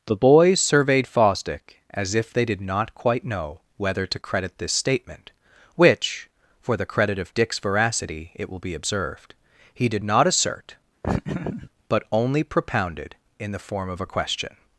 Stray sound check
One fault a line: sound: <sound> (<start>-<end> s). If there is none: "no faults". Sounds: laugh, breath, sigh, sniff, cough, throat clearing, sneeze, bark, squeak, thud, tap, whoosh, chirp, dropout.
sound: laugh (11.0-11.7 s)